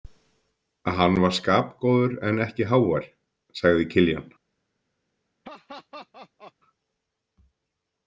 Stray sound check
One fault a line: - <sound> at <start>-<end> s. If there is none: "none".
- laugh at 5.4-6.5 s